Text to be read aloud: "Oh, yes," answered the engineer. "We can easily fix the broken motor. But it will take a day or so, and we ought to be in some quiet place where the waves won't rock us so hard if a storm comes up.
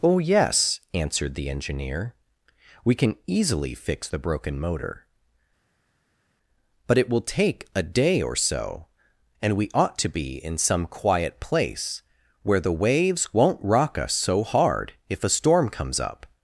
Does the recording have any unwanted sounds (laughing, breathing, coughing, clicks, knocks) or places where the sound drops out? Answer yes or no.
no